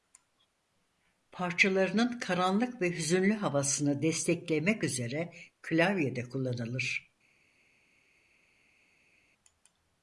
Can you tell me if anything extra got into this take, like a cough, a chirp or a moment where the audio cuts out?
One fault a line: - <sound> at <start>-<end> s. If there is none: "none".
none